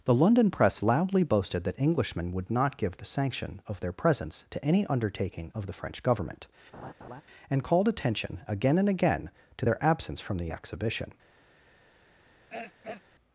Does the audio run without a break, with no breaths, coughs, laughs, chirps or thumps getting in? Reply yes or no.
no